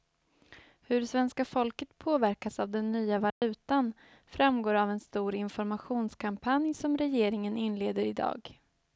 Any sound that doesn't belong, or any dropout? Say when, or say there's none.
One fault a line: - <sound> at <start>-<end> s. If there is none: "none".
- dropout at 3.3-3.4 s